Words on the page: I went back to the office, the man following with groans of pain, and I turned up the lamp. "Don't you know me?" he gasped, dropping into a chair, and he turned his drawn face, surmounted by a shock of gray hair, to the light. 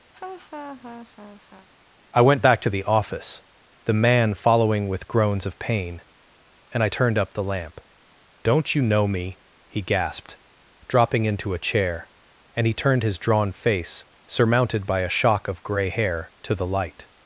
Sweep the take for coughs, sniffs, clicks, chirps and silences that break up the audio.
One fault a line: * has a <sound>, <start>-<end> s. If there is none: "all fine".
* has a laugh, 0.1-1.7 s